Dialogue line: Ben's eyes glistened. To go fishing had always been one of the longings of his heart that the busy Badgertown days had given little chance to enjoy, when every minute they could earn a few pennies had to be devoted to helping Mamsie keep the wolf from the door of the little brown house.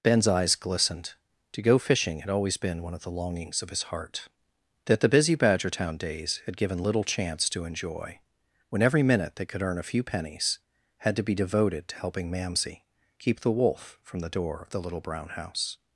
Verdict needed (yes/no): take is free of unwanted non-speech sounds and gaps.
yes